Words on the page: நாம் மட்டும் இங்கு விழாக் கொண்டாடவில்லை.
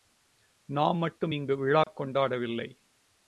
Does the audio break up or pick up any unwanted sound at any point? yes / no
yes